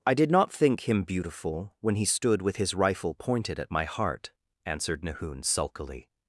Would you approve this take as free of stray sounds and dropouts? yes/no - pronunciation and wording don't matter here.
yes